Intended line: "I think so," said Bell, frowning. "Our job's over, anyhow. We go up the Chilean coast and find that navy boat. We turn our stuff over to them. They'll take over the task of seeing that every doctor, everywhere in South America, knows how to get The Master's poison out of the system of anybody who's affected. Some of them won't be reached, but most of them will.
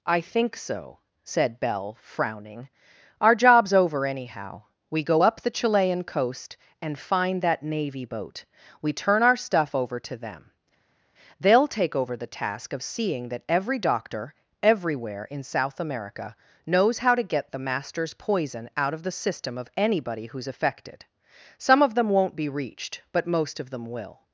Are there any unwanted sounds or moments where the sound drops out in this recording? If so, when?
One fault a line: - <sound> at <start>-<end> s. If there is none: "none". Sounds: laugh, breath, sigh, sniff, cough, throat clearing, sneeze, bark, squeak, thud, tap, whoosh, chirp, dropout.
none